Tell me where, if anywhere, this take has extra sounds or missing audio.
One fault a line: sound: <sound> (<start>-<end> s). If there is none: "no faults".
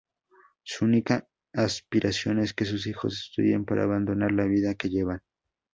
no faults